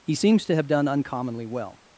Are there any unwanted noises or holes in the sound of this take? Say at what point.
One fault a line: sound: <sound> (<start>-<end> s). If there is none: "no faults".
no faults